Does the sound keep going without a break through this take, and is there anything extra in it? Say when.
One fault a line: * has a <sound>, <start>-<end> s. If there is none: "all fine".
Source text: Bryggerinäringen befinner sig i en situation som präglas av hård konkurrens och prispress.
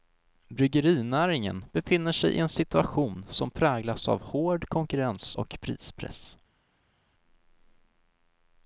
all fine